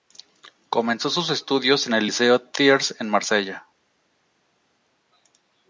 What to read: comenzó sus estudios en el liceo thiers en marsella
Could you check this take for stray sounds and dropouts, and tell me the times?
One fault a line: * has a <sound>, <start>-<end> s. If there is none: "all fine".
all fine